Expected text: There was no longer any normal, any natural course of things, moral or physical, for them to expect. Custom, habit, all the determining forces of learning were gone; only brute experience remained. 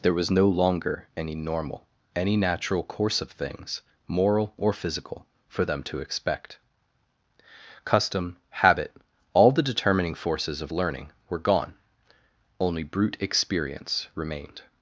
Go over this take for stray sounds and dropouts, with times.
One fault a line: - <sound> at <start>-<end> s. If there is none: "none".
none